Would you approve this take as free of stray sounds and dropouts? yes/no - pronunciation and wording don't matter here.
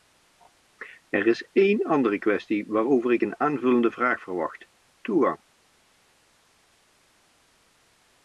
yes